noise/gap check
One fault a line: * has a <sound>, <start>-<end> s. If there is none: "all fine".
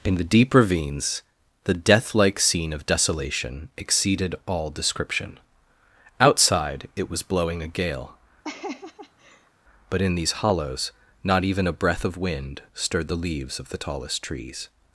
* has a laugh, 8.4-9.5 s